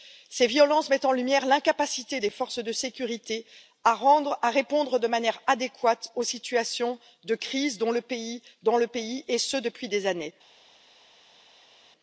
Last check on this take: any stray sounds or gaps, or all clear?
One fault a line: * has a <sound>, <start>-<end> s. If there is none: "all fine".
all fine